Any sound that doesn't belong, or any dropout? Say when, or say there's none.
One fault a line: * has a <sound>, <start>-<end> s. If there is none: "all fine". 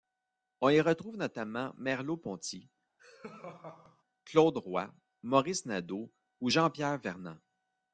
* has a laugh, 3.0-4.0 s